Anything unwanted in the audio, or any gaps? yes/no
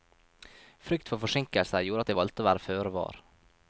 no